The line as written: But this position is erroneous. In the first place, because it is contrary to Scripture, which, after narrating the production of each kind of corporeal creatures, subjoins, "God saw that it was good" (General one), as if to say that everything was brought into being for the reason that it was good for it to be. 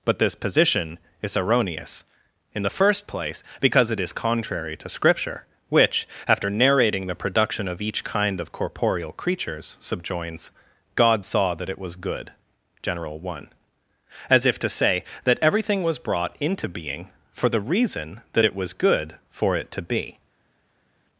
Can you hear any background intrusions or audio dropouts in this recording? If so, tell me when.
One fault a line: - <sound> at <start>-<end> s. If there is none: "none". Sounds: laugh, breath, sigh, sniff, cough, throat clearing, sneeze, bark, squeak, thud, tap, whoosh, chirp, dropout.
none